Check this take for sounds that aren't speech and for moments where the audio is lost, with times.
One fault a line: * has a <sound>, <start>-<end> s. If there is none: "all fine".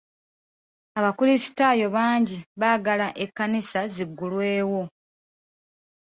all fine